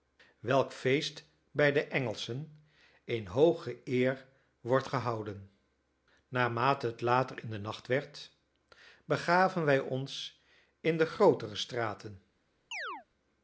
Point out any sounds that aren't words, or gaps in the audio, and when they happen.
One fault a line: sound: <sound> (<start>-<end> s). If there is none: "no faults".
sound: chirp (12.7-13.1 s)